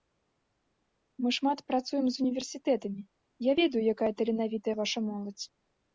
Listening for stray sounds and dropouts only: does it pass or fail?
pass